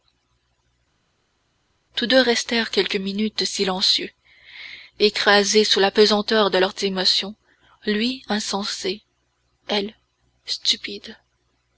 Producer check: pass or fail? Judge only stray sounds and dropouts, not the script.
pass